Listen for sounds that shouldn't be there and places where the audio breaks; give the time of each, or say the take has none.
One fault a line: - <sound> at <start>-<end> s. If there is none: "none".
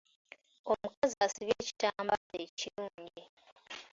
- dropout at 2.2-2.3 s